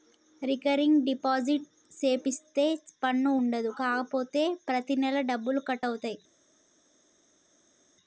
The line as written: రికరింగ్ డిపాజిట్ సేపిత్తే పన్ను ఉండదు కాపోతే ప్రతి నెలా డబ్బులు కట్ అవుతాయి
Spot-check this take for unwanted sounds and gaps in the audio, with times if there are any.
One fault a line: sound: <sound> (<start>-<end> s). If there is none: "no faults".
no faults